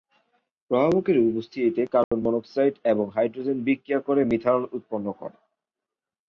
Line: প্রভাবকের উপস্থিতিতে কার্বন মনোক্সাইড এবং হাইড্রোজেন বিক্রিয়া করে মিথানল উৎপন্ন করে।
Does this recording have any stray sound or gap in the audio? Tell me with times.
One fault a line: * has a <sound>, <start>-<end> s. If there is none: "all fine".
* has a dropout, 2.0-2.1 s